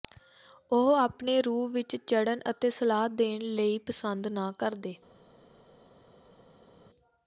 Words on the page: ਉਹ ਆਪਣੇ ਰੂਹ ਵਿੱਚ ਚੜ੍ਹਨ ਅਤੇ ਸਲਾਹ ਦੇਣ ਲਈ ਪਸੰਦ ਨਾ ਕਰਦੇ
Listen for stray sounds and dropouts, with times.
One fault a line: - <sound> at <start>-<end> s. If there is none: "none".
none